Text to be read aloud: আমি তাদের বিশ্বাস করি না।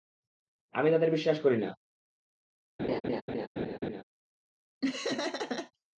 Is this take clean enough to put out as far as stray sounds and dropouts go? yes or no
no